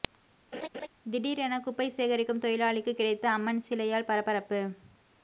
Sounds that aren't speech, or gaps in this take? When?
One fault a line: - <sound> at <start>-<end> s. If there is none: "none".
- laugh at 0.5-0.9 s